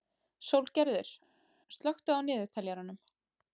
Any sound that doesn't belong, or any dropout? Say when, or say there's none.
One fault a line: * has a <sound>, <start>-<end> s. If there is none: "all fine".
all fine